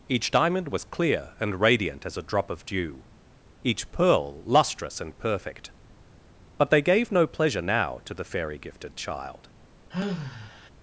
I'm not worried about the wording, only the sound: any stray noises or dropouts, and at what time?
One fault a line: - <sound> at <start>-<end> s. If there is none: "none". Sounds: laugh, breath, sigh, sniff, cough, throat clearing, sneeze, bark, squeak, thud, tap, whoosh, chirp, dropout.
- sigh at 9.9-10.7 s